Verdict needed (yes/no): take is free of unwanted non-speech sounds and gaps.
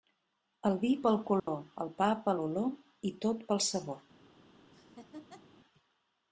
no